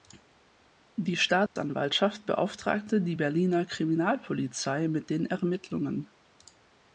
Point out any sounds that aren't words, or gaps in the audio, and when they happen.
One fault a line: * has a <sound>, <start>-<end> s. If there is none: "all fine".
* has a dropout, 1.5-1.6 s